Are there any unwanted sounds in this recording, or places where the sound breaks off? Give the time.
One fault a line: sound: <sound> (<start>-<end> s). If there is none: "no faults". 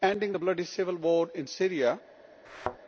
sound: thud (2.4-2.8 s)